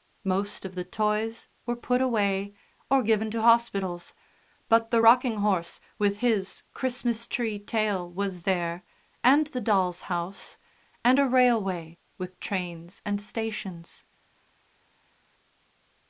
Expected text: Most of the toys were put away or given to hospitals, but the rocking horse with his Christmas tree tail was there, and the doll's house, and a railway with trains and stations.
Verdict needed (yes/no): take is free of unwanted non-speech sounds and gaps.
yes